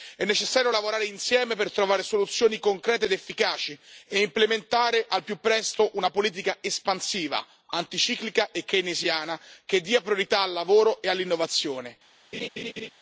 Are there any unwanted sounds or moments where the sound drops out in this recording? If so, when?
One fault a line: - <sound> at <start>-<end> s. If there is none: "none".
- laugh at 12.3-12.9 s